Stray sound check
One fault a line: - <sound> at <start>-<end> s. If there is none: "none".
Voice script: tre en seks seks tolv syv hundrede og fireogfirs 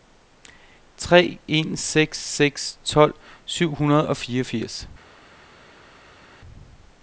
none